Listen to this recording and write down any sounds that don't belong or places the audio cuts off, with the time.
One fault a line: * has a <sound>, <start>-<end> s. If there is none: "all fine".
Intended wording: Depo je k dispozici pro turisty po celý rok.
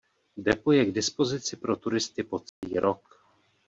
* has a dropout, 2.5-2.6 s